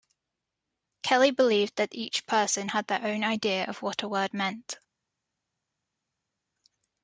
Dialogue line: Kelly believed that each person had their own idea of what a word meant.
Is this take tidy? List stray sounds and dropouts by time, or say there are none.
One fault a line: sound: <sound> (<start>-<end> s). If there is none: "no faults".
no faults